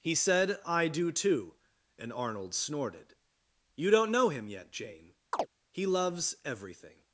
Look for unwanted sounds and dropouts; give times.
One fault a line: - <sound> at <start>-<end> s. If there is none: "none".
- chirp at 5.3-5.5 s